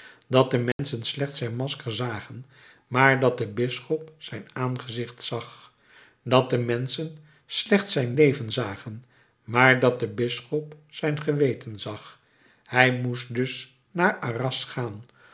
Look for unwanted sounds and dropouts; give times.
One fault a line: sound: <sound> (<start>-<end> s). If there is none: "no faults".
sound: dropout (0.7-0.8 s)